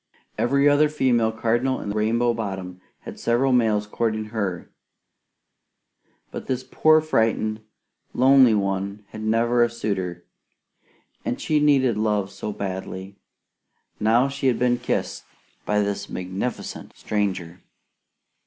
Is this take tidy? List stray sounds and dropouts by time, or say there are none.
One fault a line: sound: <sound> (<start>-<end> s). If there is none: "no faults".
no faults